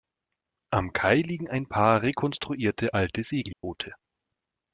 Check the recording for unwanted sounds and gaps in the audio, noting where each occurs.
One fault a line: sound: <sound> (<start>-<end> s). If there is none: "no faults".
sound: dropout (3.5-3.6 s)